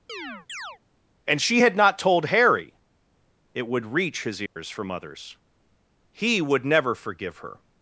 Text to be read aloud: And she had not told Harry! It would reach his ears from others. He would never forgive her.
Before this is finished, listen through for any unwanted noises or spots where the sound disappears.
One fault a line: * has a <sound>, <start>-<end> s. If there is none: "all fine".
* has a chirp, 0.1-0.8 s
* has a dropout, 4.5-4.6 s